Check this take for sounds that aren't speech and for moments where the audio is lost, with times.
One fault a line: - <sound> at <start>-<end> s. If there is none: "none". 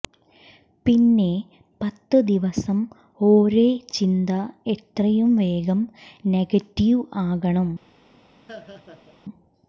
- laugh at 8.5-9.2 s